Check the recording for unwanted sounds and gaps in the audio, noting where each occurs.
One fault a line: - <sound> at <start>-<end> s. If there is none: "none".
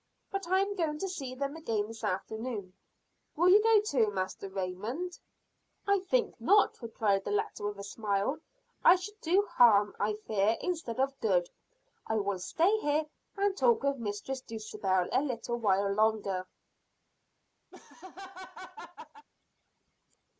- laugh at 17.7-19.3 s